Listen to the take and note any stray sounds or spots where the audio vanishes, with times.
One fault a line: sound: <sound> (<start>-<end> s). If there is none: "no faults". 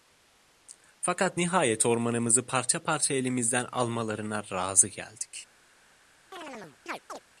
sound: chirp (6.3-7.2 s)